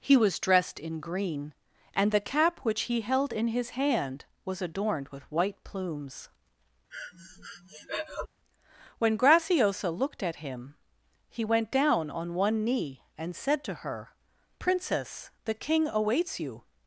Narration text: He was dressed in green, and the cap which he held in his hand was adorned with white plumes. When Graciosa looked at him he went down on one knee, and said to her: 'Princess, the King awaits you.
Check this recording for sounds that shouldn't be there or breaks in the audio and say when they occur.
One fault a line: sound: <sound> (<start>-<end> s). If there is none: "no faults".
sound: breath (6.9-8.3 s)